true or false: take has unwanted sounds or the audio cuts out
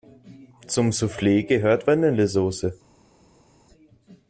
false